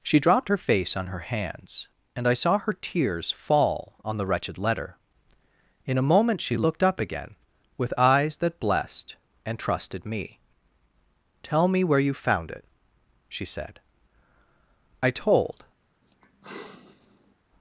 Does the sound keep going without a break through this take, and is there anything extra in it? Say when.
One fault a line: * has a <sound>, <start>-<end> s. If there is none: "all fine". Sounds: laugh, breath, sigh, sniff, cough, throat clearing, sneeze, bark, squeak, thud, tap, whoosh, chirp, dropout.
* has a sigh, 16.0-17.4 s